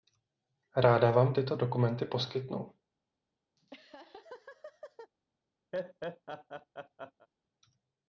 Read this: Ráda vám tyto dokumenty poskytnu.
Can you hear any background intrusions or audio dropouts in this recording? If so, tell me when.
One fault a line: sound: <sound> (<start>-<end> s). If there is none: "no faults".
sound: laugh (3.6-5.1 s)
sound: laugh (5.7-7.3 s)